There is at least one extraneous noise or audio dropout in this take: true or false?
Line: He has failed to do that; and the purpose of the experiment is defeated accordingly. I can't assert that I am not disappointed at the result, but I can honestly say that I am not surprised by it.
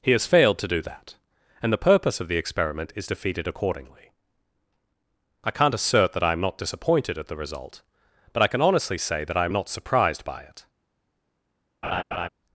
true